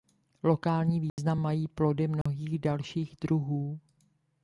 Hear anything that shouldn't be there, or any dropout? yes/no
yes